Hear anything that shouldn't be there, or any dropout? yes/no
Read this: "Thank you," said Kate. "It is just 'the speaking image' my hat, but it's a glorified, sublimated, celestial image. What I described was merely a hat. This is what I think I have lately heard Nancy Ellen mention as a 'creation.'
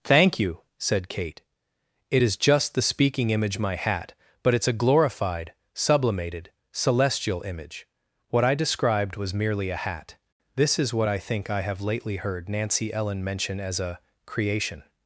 no